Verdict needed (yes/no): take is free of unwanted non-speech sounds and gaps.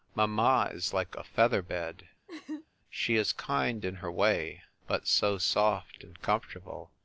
no